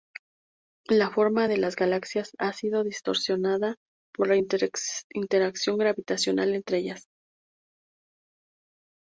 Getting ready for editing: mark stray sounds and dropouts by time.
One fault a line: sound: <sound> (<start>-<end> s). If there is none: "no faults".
no faults